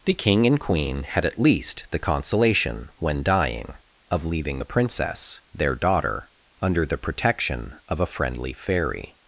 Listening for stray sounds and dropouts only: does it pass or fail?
pass